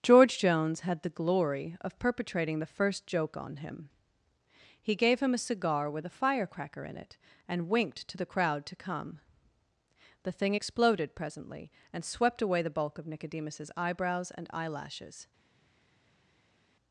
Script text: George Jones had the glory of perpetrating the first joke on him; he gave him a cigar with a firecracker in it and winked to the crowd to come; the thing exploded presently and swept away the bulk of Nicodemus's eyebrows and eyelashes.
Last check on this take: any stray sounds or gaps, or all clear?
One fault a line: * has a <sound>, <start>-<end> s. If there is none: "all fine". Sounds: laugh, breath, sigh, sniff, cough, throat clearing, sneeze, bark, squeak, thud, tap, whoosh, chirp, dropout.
all fine